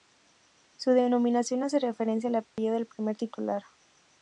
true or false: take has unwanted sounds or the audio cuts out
true